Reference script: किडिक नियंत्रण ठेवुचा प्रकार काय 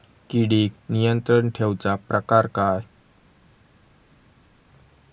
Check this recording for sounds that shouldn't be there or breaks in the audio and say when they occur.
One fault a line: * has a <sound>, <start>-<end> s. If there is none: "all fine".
all fine